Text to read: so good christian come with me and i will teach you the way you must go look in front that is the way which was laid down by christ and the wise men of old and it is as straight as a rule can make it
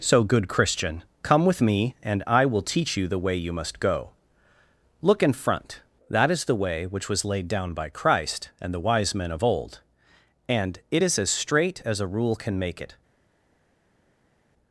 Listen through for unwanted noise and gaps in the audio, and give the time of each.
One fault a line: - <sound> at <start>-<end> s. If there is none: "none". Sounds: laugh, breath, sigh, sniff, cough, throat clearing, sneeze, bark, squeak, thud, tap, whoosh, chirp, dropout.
none